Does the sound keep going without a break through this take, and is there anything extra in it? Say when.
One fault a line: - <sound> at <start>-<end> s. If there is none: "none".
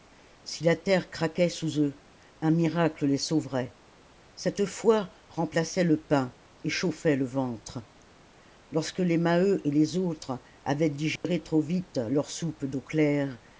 - dropout at 11.2-11.2 s